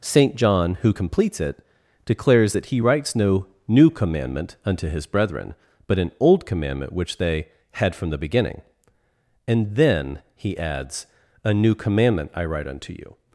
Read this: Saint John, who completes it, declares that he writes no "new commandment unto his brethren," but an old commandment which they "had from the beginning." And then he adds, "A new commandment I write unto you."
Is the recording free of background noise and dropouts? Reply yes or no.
yes